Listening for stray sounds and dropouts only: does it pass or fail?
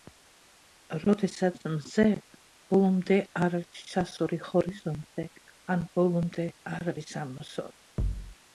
fail